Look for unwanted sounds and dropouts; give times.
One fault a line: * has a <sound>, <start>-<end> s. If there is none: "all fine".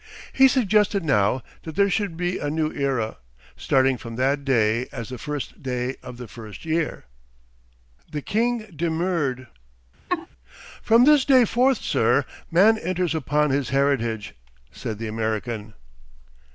* has a laugh, 10.1-10.3 s